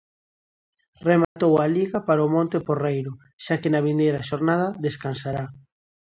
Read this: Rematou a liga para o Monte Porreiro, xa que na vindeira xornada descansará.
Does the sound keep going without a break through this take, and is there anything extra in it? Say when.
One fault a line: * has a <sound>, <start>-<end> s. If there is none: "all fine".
* has a dropout, 1.2-1.4 s